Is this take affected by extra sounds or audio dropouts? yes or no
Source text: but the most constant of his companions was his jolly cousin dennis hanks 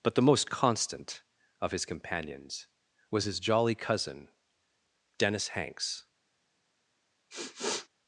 yes